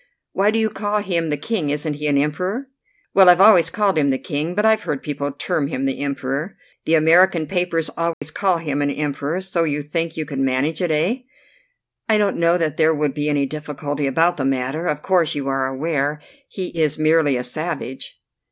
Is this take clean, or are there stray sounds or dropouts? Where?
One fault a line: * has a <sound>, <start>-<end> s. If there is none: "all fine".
* has a dropout, 8.1-8.2 s